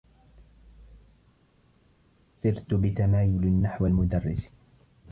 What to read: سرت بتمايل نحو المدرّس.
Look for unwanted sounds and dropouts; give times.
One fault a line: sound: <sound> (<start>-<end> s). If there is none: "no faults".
no faults